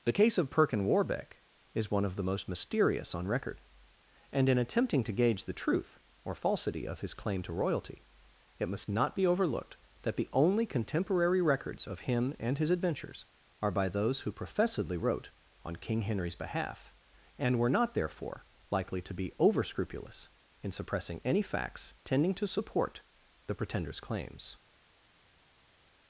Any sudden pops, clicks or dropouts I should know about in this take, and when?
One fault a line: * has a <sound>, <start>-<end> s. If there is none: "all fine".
all fine